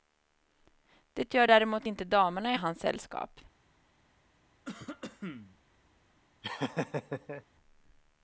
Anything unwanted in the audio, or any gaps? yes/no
yes